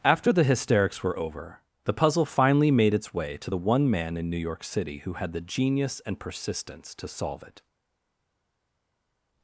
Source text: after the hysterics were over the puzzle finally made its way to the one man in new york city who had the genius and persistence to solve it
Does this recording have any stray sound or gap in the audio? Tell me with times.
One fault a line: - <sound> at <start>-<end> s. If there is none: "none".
none